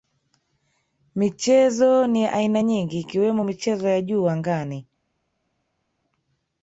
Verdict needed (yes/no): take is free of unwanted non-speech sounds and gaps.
yes